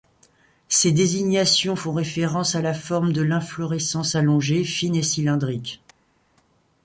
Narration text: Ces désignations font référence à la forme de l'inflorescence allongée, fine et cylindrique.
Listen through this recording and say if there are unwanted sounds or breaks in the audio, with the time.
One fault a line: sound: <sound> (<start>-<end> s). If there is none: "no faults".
no faults